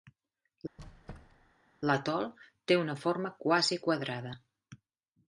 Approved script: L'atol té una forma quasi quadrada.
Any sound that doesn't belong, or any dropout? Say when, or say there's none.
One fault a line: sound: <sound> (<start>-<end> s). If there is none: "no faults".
sound: squeak (0.8-1.5 s)